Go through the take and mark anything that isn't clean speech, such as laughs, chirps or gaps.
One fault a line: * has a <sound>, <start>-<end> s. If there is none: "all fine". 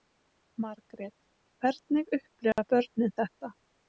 * has a dropout, 2.5-2.6 s